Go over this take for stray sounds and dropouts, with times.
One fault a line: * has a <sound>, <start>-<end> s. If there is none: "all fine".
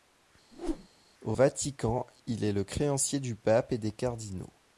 * has a whoosh, 0.5-0.9 s